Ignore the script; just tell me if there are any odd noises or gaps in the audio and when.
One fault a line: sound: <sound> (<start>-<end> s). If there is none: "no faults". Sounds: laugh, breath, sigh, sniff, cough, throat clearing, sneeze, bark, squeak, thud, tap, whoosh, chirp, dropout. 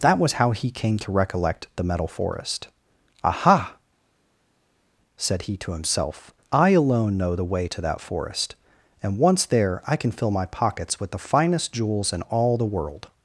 no faults